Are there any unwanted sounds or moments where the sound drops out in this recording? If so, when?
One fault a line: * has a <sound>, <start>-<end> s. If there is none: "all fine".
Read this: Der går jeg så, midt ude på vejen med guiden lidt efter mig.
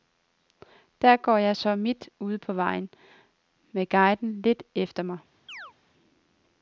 * has a chirp, 5.5-5.7 s